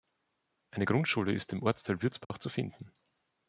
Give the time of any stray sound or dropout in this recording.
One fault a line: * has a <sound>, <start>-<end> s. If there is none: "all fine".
* has a dropout, 2.2-2.3 s